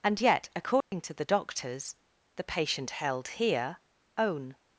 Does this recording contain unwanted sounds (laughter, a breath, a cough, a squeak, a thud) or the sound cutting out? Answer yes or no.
yes